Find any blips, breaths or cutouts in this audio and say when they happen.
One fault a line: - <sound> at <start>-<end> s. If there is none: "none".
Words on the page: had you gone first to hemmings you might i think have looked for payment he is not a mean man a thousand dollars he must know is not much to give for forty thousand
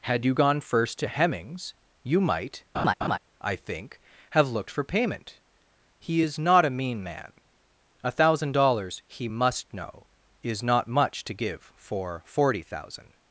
- laugh at 2.7-3.2 s